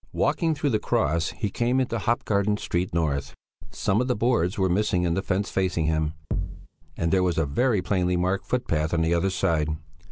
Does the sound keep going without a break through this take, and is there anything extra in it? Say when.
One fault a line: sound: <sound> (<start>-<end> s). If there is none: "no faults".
sound: thud (6.3-6.7 s)